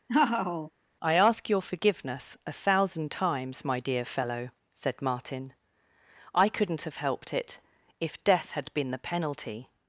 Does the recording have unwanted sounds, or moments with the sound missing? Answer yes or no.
yes